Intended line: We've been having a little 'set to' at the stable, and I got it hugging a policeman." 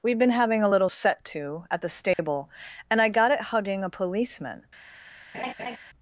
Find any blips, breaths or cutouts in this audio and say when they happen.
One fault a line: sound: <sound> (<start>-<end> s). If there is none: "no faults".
sound: dropout (2.1-2.2 s)
sound: laugh (5.3-5.8 s)